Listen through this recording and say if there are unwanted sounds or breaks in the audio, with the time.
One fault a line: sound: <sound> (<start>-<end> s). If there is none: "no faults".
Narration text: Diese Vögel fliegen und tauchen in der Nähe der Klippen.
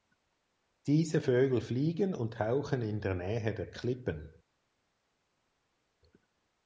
no faults